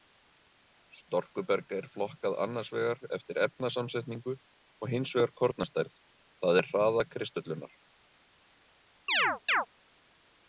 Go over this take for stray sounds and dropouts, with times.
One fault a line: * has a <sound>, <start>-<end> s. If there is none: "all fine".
* has a chirp, 9.1-9.7 s